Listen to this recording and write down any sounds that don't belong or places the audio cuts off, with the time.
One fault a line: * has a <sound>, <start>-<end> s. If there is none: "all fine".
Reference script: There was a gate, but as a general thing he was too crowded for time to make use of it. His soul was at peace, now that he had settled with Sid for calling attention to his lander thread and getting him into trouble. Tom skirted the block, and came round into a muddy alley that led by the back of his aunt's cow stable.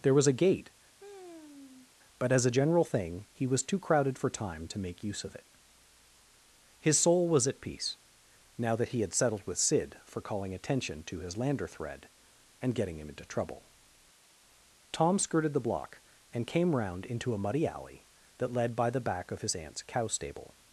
* has a sigh, 0.9-1.9 s